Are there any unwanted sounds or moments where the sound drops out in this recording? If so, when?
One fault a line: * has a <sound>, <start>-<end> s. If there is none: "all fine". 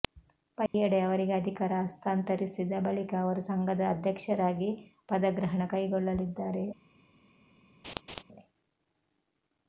* has a dropout, 0.7-0.7 s
* has a laugh, 7.8-8.2 s